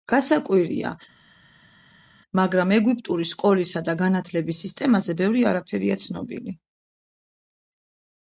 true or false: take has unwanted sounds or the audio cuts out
false